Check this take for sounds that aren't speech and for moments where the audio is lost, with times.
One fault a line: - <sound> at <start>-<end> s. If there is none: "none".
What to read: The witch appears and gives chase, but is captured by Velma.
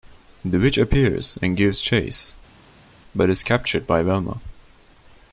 none